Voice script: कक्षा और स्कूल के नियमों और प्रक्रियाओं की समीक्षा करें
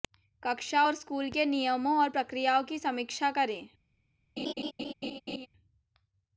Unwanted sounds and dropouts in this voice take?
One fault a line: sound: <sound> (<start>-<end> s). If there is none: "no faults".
sound: laugh (4.4-5.5 s)